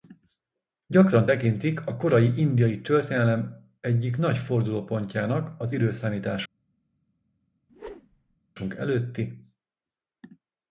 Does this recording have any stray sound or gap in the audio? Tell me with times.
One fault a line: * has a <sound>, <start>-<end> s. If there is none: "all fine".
* has a whoosh, 7.7-8.4 s